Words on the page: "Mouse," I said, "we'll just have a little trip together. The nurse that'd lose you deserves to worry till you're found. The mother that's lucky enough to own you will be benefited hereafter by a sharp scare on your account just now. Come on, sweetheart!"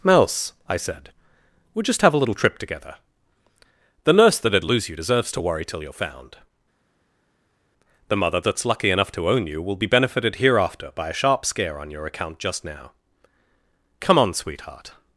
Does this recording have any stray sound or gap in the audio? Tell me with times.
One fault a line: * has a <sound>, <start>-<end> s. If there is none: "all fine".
all fine